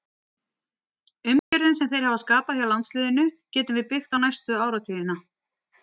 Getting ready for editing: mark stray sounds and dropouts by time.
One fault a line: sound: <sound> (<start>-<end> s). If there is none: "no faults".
sound: dropout (1.4-1.5 s)